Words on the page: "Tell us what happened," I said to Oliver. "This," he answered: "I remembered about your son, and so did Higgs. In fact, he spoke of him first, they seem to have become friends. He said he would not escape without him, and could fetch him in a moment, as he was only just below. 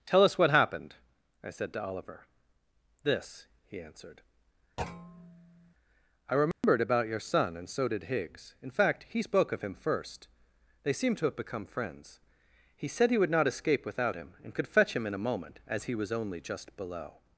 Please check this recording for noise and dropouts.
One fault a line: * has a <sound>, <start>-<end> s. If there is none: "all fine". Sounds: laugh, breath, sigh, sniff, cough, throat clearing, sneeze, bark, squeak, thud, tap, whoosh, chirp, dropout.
* has a thud, 4.8-5.7 s
* has a dropout, 6.5-6.6 s